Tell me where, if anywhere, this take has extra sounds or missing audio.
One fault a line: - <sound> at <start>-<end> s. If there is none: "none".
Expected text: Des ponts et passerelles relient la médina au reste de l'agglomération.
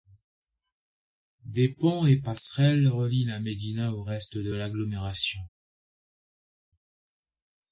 none